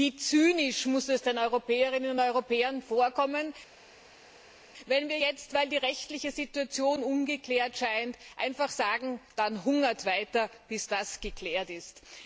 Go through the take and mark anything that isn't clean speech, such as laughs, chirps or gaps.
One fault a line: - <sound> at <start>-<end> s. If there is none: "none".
none